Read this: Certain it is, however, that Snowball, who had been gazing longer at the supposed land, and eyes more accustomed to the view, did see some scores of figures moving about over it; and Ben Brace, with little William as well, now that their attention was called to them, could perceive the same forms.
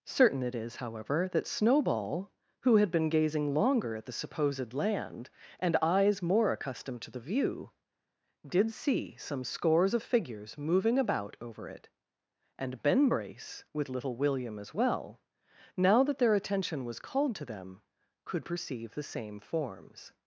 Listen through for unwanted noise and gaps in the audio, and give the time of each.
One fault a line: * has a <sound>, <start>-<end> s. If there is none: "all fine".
all fine